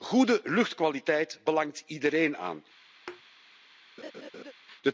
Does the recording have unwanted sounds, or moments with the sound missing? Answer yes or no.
yes